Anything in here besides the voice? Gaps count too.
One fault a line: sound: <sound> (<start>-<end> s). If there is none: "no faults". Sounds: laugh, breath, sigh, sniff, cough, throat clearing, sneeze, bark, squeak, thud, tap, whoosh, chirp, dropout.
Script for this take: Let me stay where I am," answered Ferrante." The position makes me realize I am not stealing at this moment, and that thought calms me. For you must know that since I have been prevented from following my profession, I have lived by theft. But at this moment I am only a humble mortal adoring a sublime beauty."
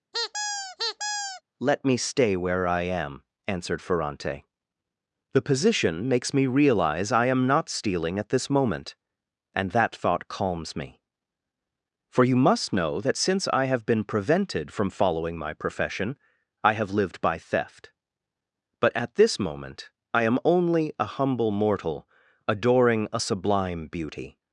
sound: squeak (0.1-1.4 s)